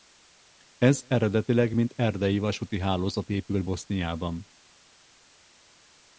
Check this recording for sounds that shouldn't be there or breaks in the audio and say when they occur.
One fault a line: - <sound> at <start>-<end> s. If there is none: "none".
none